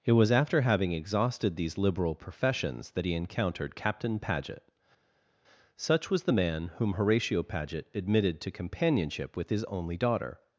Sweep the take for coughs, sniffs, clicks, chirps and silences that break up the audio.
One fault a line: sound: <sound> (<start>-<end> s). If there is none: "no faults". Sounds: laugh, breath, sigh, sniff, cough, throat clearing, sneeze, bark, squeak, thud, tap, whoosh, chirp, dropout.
no faults